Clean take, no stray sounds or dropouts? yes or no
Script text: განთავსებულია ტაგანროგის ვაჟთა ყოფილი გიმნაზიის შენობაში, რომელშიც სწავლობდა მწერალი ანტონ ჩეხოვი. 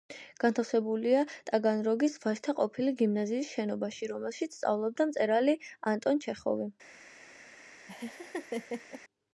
no